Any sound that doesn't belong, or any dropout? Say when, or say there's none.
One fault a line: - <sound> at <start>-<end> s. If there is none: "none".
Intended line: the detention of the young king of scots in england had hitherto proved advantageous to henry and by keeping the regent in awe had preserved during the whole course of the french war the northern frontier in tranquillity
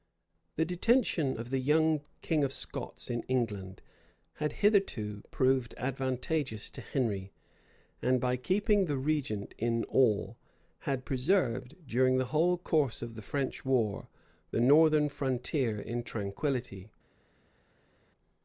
none